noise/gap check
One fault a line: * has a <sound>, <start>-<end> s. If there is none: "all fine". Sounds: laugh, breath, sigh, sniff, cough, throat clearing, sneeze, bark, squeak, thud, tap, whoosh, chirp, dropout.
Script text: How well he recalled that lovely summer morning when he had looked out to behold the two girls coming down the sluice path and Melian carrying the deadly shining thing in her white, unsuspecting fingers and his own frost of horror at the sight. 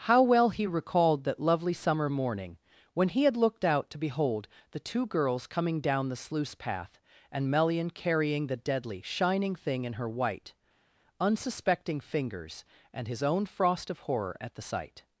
all fine